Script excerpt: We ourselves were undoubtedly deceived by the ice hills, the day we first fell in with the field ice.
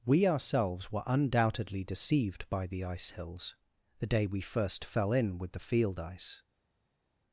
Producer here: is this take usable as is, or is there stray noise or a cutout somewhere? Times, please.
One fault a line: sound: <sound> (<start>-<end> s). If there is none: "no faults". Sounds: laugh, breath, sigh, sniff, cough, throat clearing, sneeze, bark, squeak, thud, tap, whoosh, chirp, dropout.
no faults